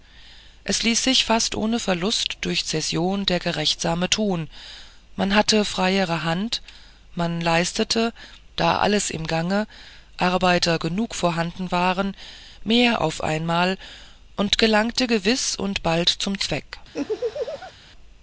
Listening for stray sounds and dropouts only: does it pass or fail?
fail